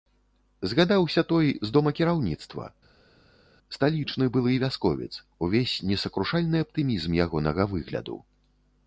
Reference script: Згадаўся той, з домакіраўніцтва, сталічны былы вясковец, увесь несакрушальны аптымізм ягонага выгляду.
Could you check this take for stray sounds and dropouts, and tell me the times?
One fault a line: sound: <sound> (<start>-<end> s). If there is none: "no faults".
no faults